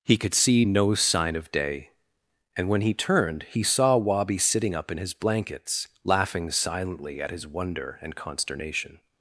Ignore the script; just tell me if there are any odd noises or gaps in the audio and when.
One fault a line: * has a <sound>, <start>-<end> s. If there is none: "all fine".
all fine